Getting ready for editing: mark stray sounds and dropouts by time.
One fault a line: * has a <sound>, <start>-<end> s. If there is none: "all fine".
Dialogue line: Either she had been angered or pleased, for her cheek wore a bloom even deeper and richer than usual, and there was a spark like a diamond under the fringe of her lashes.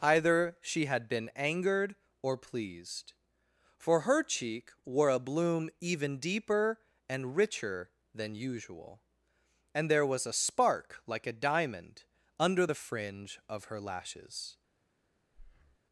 * has a breath, 15.3-15.8 s